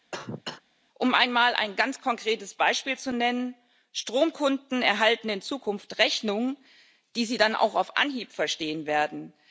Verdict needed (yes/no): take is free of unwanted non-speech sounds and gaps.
no